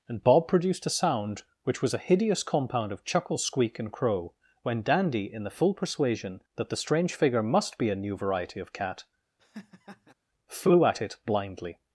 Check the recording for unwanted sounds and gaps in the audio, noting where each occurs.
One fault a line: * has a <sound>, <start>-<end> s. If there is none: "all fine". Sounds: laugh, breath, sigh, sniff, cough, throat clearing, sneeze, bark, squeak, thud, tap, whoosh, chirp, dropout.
* has a laugh, 9.4-10.1 s